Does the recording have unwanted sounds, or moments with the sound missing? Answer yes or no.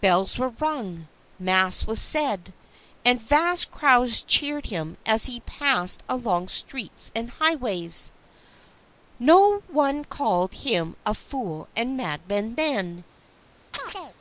yes